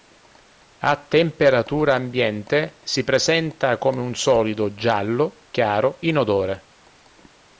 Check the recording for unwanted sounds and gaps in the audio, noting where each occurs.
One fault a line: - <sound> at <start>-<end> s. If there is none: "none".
none